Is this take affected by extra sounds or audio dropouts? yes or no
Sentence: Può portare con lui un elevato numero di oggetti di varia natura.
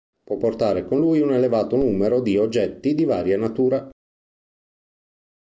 no